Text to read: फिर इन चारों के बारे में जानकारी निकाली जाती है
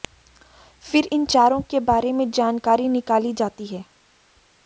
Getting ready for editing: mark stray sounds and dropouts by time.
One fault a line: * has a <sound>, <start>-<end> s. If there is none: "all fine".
all fine